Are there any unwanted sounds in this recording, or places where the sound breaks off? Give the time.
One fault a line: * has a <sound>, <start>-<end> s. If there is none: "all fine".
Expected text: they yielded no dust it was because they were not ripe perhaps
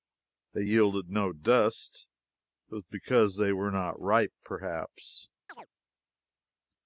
* has a chirp, 5.5-5.7 s